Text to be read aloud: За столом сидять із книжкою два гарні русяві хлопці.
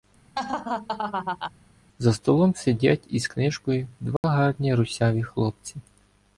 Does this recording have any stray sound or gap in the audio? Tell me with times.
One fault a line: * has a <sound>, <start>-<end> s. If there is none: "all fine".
* has a laugh, 0.3-1.5 s
* has a dropout, 4.2-4.2 s